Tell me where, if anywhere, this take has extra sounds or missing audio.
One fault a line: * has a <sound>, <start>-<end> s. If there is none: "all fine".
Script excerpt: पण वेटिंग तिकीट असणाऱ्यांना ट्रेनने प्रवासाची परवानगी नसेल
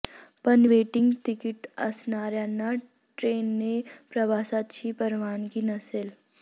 all fine